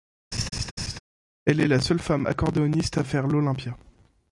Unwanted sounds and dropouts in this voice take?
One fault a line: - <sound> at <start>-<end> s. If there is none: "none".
- laugh at 0.3-1.0 s